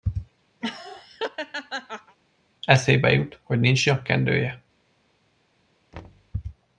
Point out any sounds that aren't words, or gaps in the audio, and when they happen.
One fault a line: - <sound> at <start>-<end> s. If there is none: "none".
- laugh at 0.6-2.2 s
- thud at 5.9-6.3 s